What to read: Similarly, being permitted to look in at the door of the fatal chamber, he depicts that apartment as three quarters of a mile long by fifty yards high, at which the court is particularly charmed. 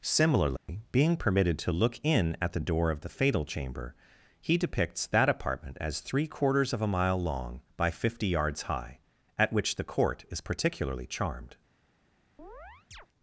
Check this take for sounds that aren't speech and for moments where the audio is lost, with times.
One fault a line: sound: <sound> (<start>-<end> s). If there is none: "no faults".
sound: dropout (0.6-0.7 s)
sound: chirp (12.4-13.1 s)